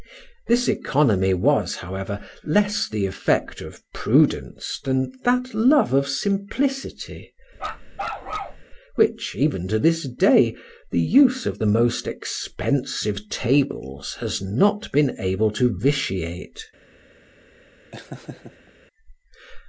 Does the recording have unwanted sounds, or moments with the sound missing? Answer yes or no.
yes